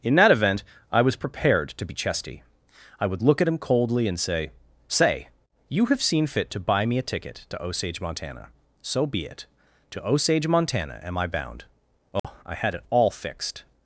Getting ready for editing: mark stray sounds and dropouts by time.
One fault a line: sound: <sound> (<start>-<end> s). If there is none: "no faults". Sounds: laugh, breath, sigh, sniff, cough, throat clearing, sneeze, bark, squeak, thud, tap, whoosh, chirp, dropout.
sound: dropout (12.2-12.2 s)